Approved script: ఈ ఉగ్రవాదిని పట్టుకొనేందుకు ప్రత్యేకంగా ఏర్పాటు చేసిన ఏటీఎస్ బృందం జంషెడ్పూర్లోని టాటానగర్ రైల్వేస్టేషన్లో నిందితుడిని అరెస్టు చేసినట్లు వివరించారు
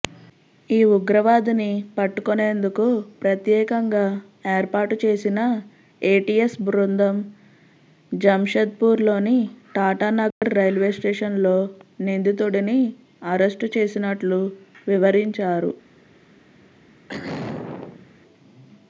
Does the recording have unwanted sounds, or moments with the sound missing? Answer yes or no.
yes